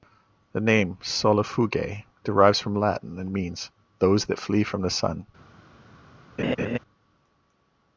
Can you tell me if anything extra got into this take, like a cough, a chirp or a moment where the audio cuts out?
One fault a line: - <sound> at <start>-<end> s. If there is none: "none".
- laugh at 6.4-6.8 s